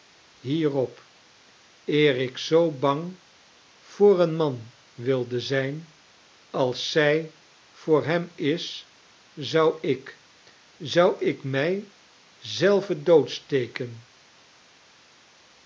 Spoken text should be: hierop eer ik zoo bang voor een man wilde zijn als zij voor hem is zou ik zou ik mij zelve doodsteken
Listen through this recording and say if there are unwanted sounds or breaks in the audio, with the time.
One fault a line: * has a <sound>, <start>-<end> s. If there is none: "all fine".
all fine